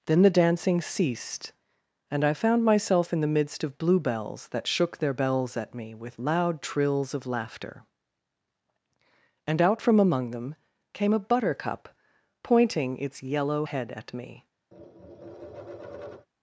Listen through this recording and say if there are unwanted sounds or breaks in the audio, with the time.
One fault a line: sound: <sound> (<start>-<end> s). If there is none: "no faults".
sound: tap (14.7-16.3 s)